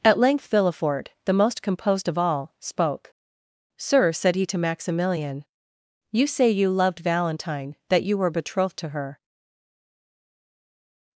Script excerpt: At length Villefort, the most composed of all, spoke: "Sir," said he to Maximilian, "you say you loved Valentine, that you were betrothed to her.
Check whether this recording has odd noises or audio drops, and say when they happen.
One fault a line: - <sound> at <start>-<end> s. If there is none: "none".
none